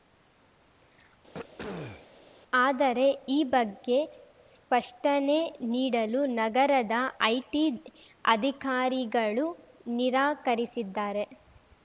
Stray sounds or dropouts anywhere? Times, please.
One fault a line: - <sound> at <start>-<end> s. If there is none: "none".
- throat clearing at 1.3-2.1 s